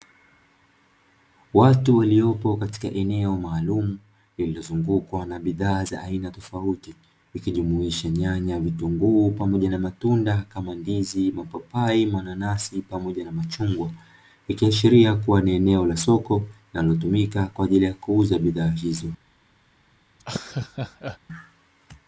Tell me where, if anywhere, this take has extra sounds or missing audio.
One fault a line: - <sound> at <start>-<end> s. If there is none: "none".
- laugh at 20.2-21.2 s